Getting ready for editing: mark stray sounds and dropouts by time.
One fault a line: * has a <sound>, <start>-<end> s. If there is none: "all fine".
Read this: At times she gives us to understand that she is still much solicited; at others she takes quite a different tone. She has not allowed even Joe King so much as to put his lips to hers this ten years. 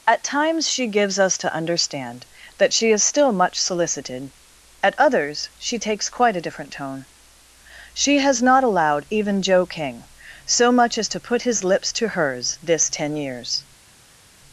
all fine